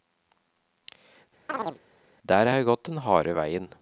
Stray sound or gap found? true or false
true